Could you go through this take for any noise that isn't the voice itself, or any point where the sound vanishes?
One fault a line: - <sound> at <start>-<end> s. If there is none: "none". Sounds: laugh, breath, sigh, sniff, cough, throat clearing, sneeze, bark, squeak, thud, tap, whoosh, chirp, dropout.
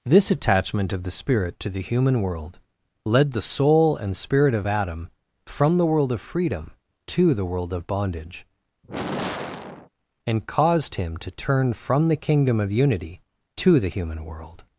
- sigh at 8.8-9.9 s